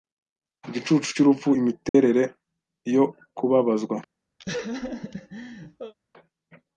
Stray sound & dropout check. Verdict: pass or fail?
fail